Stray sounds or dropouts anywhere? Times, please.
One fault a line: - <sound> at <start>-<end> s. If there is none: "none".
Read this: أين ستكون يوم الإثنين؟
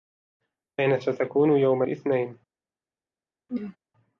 - throat clearing at 3.5-3.8 s